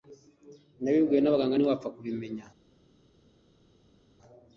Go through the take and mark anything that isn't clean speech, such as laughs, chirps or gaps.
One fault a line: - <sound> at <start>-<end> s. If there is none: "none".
none